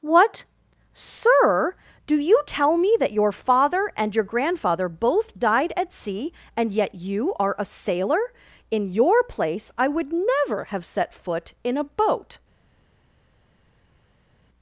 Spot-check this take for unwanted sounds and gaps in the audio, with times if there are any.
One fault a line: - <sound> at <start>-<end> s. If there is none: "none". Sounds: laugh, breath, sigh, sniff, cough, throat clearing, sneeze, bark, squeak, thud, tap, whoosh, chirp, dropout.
none